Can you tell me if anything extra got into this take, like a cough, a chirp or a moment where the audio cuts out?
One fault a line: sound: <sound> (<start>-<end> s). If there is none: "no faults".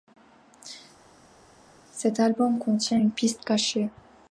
no faults